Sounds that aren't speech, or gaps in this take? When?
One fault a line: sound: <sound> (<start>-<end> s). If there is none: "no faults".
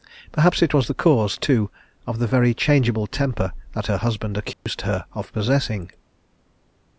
sound: dropout (4.5-4.7 s)